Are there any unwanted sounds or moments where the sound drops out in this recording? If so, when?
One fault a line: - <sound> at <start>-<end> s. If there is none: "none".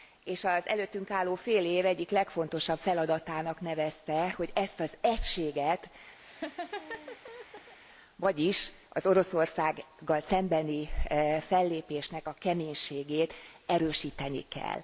- laugh at 6.2-7.8 s